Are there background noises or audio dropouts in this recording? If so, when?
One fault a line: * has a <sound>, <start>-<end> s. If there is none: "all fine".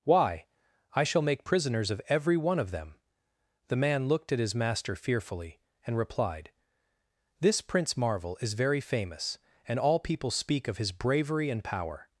all fine